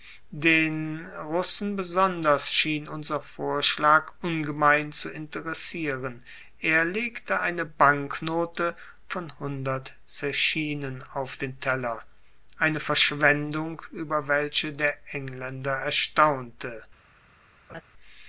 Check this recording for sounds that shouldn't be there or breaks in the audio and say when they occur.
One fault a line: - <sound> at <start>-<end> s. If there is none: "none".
- laugh at 17.7-17.8 s